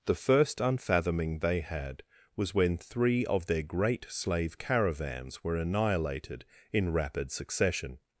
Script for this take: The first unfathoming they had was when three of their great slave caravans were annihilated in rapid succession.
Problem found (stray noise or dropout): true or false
false